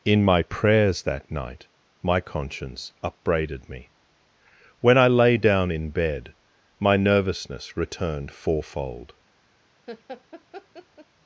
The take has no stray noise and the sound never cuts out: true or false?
false